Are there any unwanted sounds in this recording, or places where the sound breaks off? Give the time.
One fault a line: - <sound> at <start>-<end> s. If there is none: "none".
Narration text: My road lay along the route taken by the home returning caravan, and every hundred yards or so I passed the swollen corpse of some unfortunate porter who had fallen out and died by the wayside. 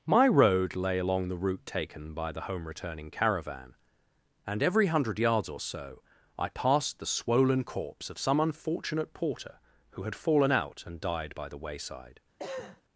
- cough at 12.4-12.8 s